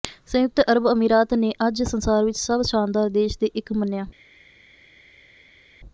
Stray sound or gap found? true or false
false